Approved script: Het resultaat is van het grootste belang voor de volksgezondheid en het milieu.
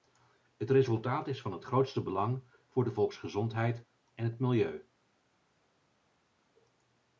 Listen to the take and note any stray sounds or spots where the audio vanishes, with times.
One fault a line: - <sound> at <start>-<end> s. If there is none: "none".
none